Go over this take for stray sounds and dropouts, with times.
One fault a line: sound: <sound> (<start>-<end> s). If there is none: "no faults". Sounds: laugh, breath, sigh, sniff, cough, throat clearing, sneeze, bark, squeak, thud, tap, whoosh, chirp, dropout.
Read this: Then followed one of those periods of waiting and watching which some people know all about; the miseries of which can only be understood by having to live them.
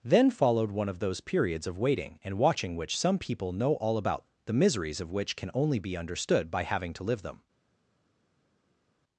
no faults